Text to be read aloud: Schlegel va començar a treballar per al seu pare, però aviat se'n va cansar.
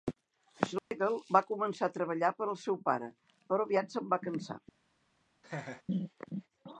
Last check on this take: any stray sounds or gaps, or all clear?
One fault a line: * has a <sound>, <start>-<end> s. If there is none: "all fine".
* has a dropout, 0.8-0.9 s
* has a laugh, 5.4-5.8 s